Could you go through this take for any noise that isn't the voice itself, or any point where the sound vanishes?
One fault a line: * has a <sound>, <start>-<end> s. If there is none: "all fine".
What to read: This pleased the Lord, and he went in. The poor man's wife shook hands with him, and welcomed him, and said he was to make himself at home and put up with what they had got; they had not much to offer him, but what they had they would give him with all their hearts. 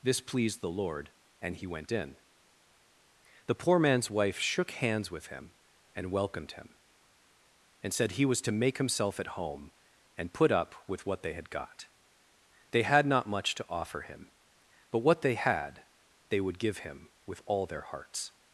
all fine